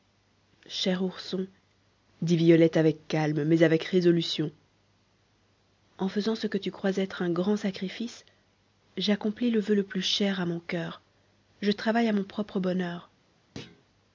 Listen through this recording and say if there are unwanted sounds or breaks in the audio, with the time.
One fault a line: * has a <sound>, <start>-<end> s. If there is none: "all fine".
* has a thud, 13.6-13.8 s